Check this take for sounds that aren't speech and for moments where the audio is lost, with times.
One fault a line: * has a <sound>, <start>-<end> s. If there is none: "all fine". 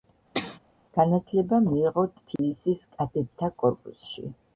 * has a sneeze, 0.3-0.6 s
* has a dropout, 2.4-2.4 s